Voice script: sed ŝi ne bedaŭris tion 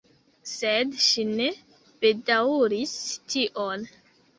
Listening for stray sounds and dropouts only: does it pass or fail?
pass